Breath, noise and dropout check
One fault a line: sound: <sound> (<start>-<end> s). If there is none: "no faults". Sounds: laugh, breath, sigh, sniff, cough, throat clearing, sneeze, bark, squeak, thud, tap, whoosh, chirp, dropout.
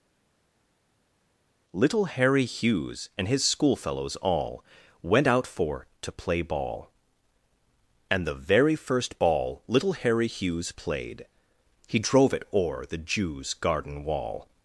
no faults